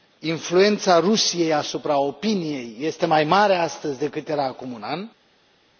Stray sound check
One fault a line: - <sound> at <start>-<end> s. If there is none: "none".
none